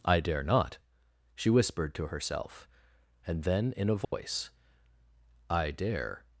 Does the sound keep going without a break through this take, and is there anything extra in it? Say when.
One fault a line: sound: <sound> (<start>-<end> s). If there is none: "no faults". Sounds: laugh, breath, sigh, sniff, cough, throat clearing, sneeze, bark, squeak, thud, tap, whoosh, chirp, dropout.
sound: dropout (4.0-4.1 s)